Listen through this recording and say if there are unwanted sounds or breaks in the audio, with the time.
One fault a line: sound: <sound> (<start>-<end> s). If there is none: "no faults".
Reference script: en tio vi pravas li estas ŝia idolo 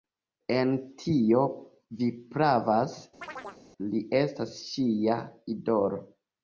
sound: chirp (3.2-3.6 s)